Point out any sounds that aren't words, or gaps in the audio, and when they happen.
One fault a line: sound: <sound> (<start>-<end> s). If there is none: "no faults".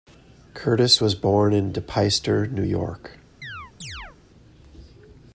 sound: chirp (3.4-4.2 s)